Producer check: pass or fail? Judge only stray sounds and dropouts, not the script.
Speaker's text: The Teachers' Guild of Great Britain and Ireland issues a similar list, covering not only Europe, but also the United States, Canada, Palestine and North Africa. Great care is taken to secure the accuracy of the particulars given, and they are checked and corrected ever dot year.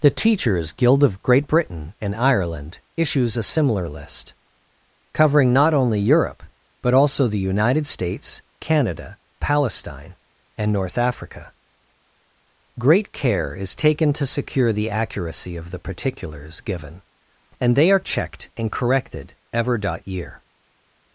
pass